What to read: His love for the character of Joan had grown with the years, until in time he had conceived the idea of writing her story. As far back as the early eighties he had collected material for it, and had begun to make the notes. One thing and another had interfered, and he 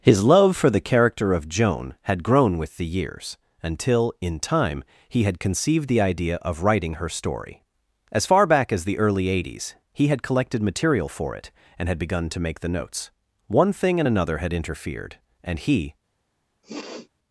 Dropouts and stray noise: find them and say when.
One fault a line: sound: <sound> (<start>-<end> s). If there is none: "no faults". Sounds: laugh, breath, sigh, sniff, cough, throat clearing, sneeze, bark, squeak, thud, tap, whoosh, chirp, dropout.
sound: sniff (16.6-17.1 s)